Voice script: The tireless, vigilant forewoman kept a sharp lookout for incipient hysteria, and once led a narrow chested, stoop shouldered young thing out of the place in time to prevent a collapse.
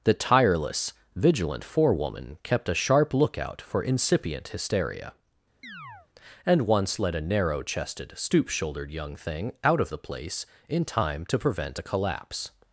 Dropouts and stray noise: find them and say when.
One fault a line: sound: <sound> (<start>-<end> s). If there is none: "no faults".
sound: chirp (5.6-6.1 s)